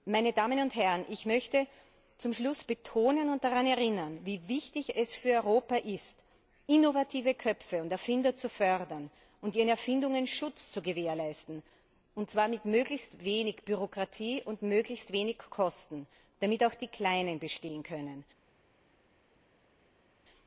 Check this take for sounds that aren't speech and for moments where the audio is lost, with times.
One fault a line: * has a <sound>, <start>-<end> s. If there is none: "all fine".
all fine